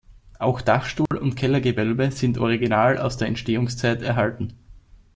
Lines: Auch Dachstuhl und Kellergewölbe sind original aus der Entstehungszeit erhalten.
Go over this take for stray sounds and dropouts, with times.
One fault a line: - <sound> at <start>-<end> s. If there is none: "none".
- dropout at 1.1-1.1 s